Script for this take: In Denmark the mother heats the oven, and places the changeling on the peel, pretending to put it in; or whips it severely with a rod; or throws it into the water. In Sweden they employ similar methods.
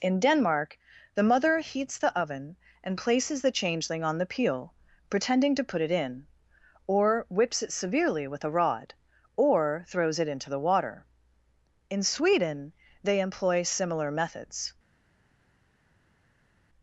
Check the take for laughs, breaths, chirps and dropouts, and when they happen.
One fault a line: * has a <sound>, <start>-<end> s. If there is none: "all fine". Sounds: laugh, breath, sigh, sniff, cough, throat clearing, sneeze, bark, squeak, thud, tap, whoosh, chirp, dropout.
all fine